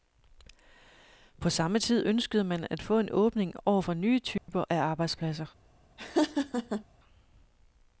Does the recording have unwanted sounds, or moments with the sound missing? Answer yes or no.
yes